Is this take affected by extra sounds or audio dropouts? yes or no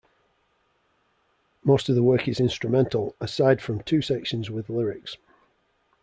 no